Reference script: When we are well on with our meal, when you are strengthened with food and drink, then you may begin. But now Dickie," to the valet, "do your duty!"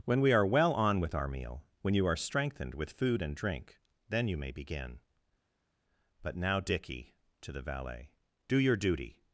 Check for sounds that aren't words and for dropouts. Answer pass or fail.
pass